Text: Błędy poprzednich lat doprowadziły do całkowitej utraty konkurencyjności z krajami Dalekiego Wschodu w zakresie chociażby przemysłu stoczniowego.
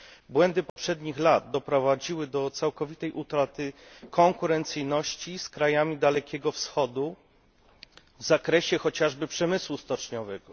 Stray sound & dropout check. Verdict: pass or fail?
fail